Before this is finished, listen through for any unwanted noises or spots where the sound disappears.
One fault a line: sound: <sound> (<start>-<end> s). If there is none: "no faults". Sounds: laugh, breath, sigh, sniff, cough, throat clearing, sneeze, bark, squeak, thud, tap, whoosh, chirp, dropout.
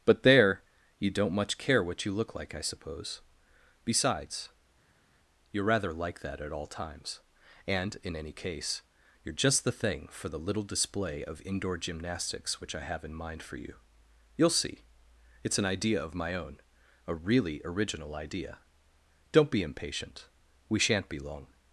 no faults